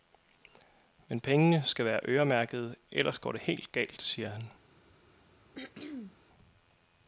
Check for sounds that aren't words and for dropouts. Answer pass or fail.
fail